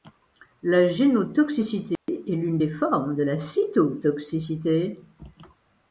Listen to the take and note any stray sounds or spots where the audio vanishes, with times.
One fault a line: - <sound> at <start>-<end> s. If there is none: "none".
- dropout at 2.0-2.1 s